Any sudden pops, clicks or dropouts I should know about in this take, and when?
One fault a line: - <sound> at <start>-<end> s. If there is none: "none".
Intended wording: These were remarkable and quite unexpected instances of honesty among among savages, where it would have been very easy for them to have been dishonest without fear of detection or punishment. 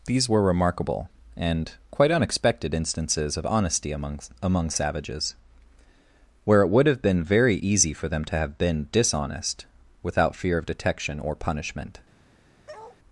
- bark at 12.7-13.0 s